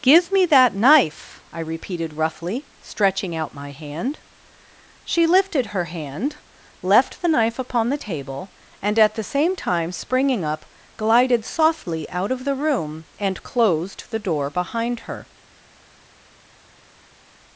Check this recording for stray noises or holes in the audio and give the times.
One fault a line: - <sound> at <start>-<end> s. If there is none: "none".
none